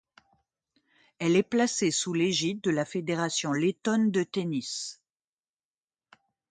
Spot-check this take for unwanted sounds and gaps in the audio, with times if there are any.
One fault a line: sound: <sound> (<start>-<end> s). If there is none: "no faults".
no faults